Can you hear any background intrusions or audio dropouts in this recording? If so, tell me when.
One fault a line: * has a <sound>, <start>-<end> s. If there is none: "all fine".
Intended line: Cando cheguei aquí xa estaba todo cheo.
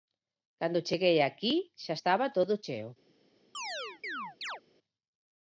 * has a chirp, 3.5-4.6 s